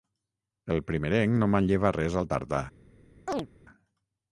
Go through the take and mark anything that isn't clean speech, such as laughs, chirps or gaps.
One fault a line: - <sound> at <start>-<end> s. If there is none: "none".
- chirp at 3.3-3.5 s